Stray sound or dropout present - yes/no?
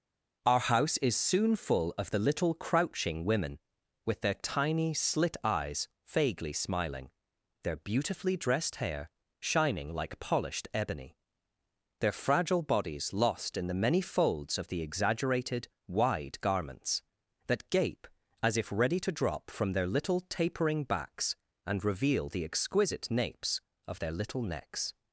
no